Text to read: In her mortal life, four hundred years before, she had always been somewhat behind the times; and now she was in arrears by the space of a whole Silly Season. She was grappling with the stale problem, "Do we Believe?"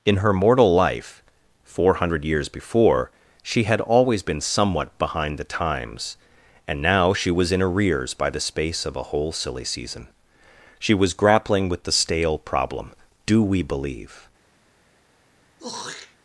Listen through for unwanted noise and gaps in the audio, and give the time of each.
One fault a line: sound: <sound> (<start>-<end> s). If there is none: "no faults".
sound: throat clearing (15.6-16.2 s)